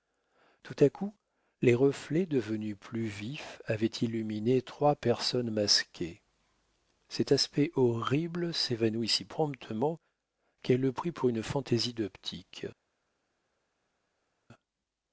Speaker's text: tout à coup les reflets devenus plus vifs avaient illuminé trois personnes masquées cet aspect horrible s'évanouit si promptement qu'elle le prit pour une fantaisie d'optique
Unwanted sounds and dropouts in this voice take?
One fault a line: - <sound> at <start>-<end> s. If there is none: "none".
none